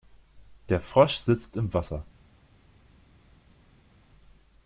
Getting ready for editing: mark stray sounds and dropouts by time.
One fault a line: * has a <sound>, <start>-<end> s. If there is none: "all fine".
all fine